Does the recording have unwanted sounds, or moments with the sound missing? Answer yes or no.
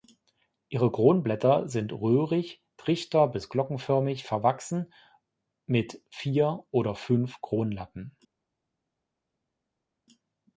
no